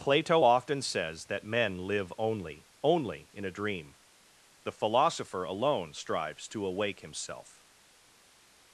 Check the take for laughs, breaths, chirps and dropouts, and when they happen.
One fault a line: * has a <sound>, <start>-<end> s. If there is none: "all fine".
all fine